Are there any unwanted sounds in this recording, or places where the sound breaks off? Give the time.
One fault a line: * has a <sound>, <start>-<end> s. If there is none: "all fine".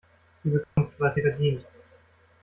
* has a dropout, 0.6-0.8 s